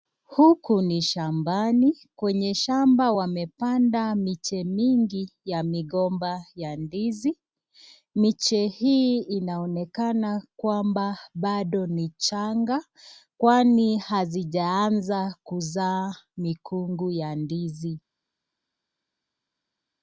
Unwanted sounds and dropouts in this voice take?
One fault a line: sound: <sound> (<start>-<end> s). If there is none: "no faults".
no faults